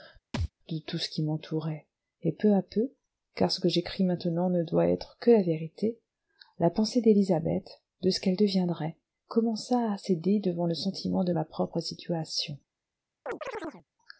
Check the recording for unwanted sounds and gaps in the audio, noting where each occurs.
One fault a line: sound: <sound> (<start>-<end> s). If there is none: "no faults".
sound: thud (0.3-0.5 s)
sound: chirp (13.3-13.8 s)